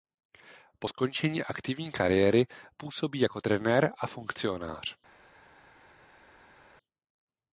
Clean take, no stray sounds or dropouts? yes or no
yes